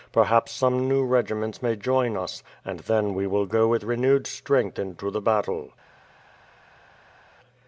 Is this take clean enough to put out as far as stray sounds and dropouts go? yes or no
yes